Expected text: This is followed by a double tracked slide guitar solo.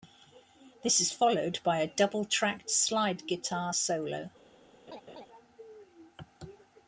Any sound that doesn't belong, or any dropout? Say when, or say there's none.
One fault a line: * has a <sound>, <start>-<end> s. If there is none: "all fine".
* has a laugh, 4.9-5.3 s